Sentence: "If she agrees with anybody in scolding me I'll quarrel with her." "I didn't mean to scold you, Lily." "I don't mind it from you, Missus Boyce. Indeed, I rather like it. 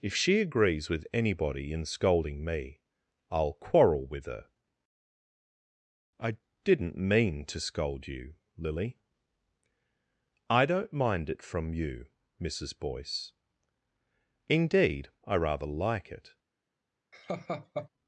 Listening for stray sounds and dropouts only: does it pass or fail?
fail